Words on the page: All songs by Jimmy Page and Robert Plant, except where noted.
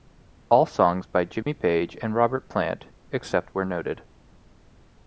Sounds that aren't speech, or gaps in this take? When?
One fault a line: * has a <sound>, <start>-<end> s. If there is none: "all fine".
* has a dropout, 1.4-1.5 s